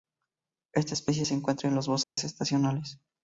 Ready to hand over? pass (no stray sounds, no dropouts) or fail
fail